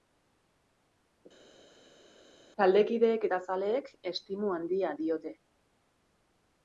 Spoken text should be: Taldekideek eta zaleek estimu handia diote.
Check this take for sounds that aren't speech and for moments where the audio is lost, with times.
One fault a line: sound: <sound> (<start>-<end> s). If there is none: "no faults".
no faults